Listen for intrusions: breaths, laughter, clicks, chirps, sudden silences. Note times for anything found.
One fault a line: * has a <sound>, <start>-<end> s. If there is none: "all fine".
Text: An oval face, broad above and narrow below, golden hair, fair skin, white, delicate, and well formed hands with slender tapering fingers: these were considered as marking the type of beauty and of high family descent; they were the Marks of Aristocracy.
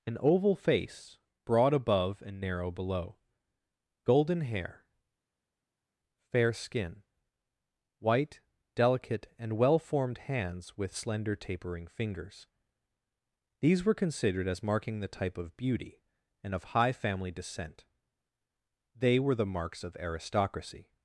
all fine